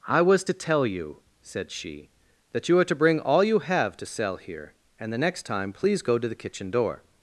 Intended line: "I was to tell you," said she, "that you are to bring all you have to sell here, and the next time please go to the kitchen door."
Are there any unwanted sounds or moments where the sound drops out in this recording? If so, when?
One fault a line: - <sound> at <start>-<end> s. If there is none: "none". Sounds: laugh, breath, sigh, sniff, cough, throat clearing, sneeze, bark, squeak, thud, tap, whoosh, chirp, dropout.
none